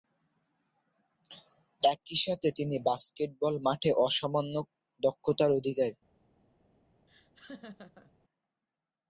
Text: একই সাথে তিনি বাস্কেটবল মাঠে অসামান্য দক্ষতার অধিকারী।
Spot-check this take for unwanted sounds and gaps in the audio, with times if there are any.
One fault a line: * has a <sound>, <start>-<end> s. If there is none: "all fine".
* has a laugh, 7.1-8.1 s